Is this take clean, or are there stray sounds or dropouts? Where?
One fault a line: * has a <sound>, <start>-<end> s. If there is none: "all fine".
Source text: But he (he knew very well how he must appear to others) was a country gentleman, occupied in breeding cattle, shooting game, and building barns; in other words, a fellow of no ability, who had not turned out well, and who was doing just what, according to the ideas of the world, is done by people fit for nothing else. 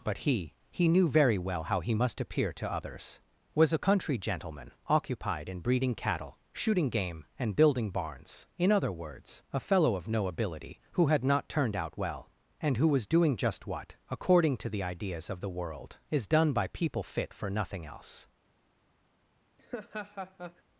* has a laugh, 19.6-20.6 s